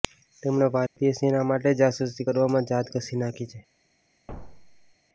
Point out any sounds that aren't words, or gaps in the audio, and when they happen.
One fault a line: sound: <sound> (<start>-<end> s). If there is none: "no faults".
sound: dropout (0.9-1.0 s)
sound: thud (4.3-4.9 s)